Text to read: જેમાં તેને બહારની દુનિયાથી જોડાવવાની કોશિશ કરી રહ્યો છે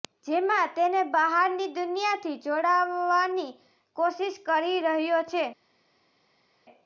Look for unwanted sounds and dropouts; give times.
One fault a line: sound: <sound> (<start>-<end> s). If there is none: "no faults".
no faults